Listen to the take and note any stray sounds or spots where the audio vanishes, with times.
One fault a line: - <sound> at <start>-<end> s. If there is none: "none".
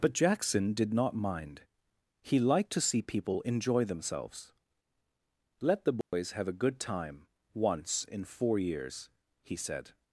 - dropout at 6.0-6.1 s